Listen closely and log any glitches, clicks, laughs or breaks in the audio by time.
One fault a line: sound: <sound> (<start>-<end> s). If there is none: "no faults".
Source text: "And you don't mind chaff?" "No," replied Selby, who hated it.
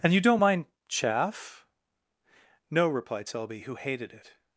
no faults